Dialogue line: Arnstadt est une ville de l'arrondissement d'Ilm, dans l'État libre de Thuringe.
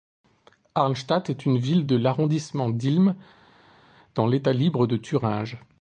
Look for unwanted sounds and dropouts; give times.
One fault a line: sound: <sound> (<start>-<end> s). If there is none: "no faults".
no faults